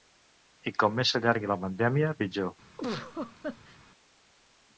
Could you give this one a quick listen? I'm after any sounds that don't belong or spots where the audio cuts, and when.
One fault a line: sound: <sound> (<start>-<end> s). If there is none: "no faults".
sound: laugh (2.8-3.8 s)